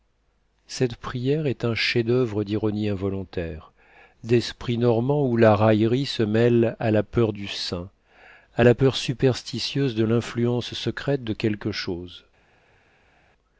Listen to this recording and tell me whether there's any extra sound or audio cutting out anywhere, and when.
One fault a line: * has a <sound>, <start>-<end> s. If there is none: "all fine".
all fine